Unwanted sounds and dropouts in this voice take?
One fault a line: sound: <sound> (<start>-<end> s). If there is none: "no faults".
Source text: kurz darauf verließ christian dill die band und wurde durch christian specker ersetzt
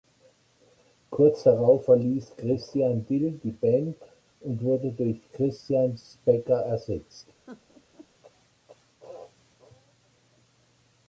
sound: laugh (7.5-8.1 s)